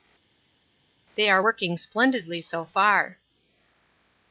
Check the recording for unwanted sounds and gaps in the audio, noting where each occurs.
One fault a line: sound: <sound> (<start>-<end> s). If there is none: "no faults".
no faults